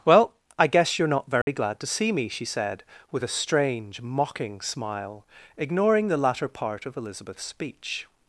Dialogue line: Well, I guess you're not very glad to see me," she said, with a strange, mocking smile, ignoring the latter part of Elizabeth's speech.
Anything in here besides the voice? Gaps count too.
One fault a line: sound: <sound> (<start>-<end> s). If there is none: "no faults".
sound: dropout (1.4-1.5 s)